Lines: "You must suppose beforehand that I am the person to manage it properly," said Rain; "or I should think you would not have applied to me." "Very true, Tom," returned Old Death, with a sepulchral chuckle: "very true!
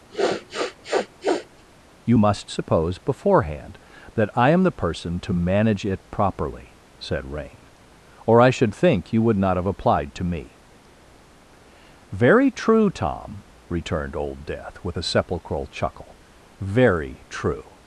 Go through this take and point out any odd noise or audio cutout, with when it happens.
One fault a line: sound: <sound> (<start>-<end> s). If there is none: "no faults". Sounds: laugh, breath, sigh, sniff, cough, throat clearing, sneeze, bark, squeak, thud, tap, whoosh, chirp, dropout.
sound: sniff (0.1-1.6 s)